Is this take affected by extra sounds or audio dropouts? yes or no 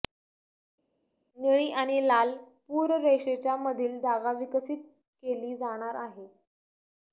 no